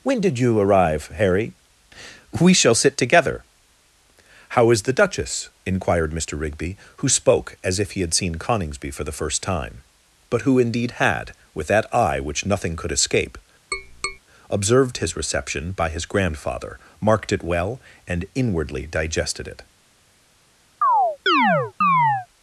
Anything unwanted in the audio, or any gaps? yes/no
yes